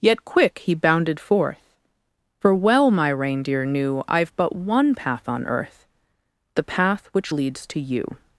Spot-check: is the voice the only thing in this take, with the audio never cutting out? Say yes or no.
yes